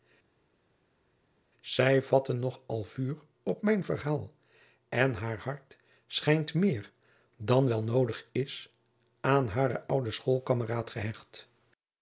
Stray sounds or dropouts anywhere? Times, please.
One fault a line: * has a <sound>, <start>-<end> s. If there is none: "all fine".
all fine